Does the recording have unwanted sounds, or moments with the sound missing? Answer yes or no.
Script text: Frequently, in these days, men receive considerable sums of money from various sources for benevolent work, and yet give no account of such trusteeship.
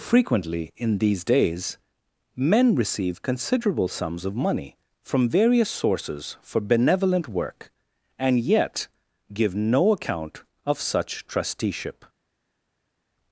no